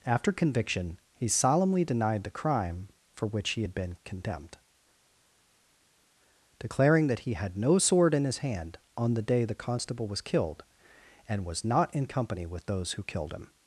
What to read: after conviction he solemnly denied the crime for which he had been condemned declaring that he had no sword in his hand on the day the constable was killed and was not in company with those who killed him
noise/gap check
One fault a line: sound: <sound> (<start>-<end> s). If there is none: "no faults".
no faults